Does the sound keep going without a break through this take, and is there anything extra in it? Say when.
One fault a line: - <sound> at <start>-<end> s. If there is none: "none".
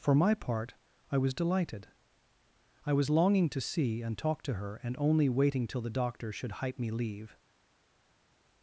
none